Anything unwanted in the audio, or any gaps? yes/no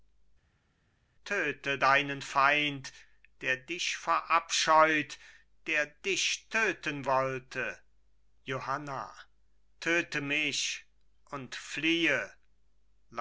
no